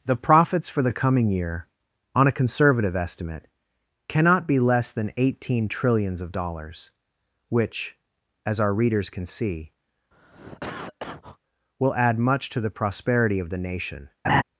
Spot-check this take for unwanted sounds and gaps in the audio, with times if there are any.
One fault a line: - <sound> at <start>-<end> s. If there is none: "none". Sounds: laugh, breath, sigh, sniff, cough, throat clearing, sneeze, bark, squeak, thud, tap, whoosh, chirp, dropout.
- cough at 10.1-11.4 s
- laugh at 14.2-14.4 s